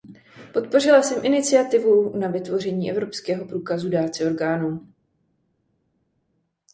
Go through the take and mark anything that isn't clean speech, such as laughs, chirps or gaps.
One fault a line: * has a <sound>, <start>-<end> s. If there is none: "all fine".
all fine